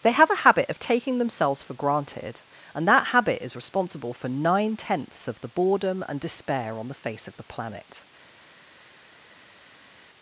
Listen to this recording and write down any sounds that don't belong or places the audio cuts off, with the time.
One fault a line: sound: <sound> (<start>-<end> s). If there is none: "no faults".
no faults